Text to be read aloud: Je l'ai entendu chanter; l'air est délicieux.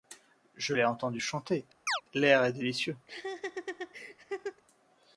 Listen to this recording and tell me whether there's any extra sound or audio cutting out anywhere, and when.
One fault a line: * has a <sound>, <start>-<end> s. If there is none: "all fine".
* has a chirp, 1.9-2.0 s
* has a laugh, 3.1-4.6 s